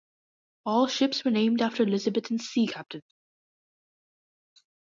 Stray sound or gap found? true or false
false